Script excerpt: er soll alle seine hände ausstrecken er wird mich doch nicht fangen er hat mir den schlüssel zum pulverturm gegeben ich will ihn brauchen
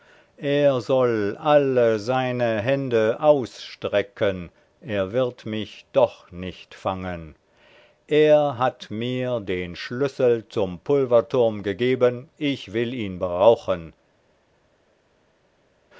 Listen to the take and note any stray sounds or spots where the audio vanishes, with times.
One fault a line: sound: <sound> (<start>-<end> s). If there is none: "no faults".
no faults